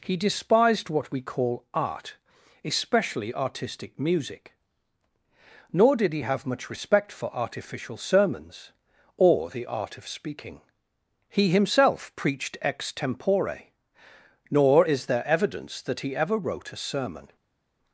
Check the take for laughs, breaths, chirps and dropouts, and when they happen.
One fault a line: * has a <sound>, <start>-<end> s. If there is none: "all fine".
all fine